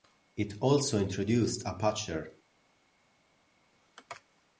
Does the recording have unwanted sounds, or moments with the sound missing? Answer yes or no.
no